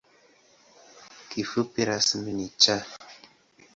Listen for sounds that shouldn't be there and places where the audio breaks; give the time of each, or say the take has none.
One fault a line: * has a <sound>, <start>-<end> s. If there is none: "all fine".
all fine